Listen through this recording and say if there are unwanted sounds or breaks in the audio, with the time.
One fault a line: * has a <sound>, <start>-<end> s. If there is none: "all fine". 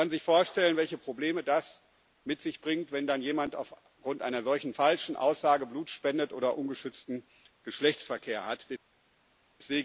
all fine